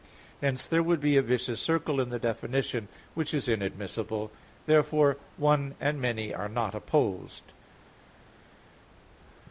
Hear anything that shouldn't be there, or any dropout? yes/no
no